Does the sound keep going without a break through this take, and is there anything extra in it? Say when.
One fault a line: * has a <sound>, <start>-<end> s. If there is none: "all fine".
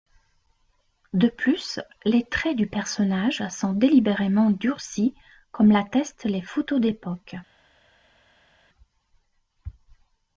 all fine